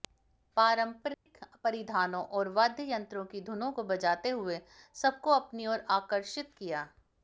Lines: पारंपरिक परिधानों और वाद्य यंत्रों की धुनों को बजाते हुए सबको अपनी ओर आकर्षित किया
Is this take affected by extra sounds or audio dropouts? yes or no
yes